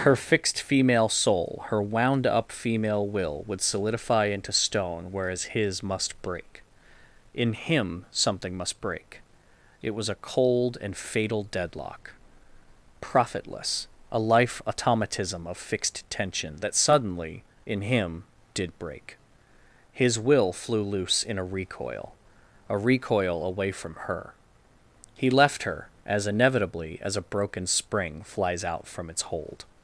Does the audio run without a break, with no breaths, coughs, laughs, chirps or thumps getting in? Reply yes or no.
yes